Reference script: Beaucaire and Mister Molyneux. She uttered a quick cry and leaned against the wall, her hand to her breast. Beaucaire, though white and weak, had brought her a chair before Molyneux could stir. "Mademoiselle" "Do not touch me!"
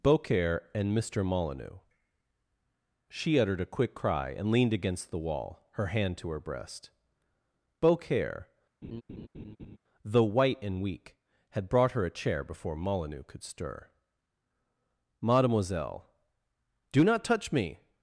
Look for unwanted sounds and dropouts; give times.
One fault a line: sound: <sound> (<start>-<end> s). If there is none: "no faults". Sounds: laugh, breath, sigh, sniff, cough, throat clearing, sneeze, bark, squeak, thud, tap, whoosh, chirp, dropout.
sound: laugh (8.8-9.8 s)